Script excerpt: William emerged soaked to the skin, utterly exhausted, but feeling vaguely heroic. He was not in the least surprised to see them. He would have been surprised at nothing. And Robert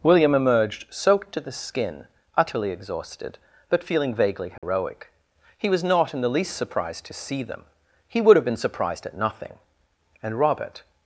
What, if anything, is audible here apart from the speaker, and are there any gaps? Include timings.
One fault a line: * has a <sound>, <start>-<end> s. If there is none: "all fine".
* has a dropout, 4.6-4.6 s